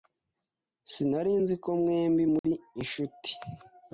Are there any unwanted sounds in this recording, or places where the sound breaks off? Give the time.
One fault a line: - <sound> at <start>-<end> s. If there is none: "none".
- dropout at 2.4-2.4 s